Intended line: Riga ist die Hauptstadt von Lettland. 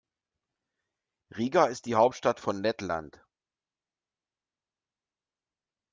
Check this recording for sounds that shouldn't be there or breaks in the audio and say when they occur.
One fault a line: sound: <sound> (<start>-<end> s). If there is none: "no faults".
no faults